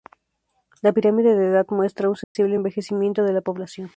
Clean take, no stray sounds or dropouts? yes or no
no